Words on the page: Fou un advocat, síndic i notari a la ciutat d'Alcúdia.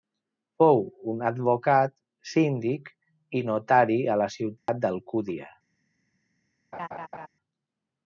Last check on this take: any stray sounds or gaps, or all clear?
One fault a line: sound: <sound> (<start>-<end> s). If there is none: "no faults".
sound: dropout (4.6-4.7 s)
sound: laugh (6.7-7.3 s)